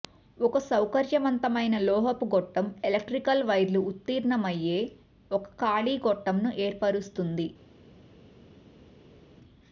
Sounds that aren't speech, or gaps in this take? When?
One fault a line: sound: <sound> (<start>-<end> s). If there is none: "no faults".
no faults